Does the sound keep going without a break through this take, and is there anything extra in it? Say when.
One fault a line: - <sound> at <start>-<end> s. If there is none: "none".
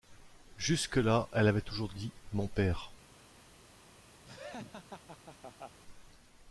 - laugh at 4.2-5.8 s